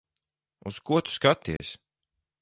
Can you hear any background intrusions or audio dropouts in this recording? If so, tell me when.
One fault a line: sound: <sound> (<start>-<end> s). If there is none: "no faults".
sound: dropout (1.6-1.6 s)